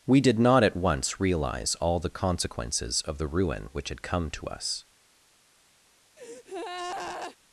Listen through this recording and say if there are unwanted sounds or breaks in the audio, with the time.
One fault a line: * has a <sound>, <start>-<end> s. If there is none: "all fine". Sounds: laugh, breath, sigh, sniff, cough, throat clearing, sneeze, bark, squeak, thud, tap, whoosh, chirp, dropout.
* has a breath, 6.2-7.4 s